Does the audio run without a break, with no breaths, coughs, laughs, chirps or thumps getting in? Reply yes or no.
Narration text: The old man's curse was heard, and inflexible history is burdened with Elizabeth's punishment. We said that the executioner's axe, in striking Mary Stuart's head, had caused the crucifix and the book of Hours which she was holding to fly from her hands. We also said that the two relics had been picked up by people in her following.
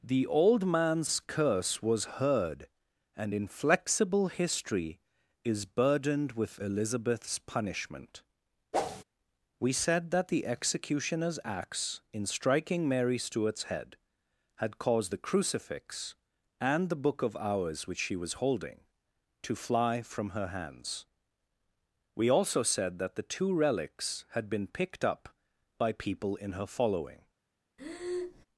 no